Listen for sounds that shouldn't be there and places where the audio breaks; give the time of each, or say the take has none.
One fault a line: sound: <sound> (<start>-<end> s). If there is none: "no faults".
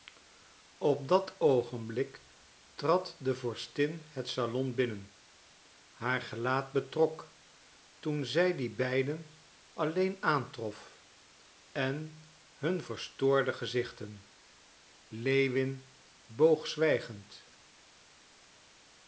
no faults